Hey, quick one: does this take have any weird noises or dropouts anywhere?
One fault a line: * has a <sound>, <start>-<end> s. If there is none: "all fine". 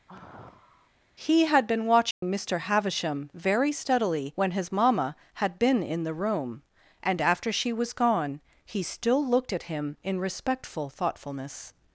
* has a sigh, 0.1-0.9 s
* has a dropout, 2.1-2.2 s